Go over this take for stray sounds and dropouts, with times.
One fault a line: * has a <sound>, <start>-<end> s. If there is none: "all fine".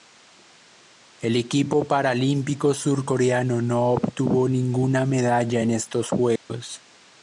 * has a dropout, 6.4-6.5 s